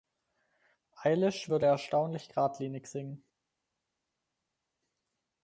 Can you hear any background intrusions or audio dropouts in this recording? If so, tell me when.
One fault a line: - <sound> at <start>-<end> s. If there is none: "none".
none